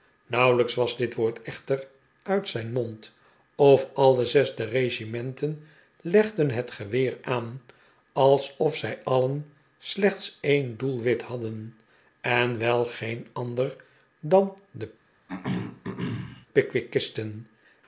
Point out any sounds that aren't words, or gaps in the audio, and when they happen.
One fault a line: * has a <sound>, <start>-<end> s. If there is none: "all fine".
* has a throat clearing, 15.3-16.5 s